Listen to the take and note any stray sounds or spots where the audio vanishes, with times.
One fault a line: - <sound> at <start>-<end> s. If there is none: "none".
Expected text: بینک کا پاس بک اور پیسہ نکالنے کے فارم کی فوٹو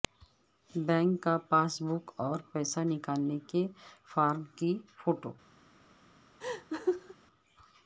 - laugh at 6.4-7.2 s